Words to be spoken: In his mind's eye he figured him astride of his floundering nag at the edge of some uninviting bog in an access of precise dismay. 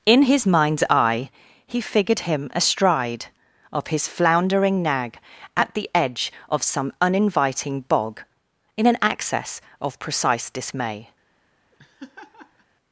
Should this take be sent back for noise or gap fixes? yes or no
yes